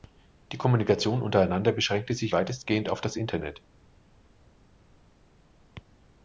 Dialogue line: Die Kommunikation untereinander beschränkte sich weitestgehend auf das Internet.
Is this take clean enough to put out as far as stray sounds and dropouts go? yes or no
yes